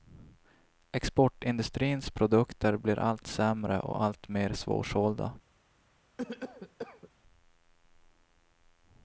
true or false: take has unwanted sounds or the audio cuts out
true